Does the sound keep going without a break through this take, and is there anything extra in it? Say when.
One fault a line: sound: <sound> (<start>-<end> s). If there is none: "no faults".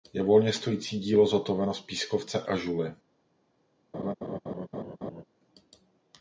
sound: laugh (3.9-5.2 s)